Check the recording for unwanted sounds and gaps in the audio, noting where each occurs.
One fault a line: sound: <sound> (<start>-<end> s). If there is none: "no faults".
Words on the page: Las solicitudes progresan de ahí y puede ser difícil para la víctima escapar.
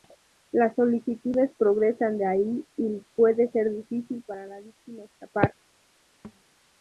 sound: thud (6.2-6.4 s)